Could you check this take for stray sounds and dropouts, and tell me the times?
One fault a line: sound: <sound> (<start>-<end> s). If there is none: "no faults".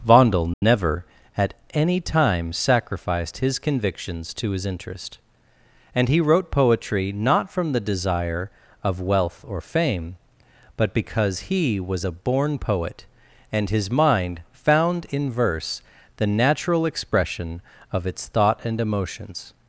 sound: dropout (0.5-0.6 s)